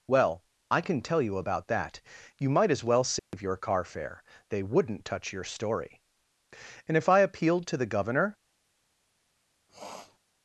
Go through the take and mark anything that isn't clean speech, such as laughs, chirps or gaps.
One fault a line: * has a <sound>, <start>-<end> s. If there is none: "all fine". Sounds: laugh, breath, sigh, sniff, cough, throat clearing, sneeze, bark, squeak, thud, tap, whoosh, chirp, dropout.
* has a dropout, 3.2-3.3 s
* has a sniff, 9.7-10.2 s